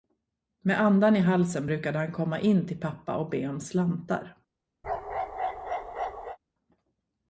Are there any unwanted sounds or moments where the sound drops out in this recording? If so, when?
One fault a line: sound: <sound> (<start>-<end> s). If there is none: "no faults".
sound: bark (4.8-6.4 s)